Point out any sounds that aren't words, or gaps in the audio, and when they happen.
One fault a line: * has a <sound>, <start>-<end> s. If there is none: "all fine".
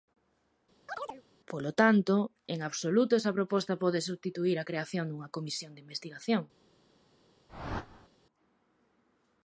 * has a chirp, 0.9-1.2 s
* has a whoosh, 7.5-8.1 s